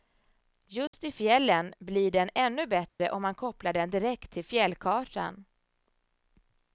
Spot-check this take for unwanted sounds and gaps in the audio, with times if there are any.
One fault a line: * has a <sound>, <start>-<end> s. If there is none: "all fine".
* has a dropout, 0.9-0.9 s
* has a dropout, 2.9-3.0 s